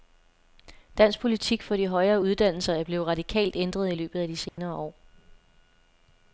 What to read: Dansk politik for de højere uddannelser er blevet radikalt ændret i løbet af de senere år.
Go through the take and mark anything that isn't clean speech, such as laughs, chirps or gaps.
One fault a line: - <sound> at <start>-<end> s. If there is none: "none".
- dropout at 4.5-4.6 s